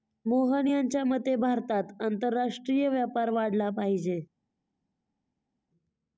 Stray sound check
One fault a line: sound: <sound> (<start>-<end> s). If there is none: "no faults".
no faults